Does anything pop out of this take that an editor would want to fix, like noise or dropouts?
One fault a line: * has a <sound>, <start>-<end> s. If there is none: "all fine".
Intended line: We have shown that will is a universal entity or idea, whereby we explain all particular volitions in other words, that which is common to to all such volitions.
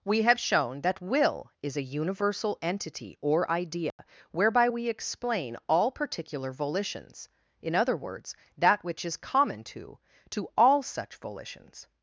* has a dropout, 3.9-4.0 s